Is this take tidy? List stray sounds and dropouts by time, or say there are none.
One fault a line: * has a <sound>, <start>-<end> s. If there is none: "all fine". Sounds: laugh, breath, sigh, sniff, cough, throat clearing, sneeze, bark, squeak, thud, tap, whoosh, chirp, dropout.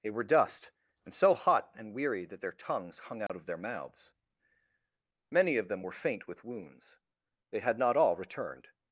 * has a dropout, 3.3-3.3 s